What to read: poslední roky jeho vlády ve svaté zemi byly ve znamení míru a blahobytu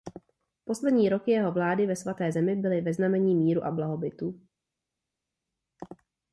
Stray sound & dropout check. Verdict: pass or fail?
pass